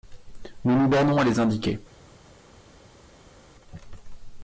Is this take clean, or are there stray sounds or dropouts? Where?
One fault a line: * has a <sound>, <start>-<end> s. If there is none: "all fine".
all fine